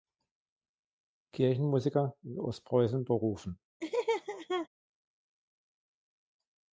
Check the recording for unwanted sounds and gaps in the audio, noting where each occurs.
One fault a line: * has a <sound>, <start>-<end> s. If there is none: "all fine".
* has a laugh, 3.8-4.7 s